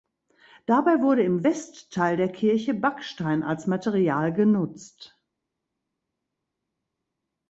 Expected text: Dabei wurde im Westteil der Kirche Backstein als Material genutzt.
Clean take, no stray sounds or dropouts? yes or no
yes